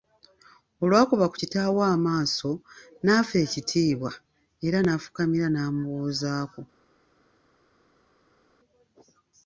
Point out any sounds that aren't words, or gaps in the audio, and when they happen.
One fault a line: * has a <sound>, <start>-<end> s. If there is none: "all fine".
all fine